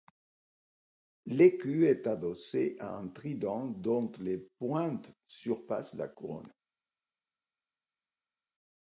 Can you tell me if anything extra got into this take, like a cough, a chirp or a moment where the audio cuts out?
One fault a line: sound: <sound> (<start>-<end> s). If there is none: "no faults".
no faults